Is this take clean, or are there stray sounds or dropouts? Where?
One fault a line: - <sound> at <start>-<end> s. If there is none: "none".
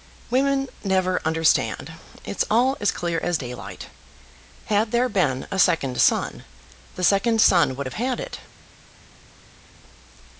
none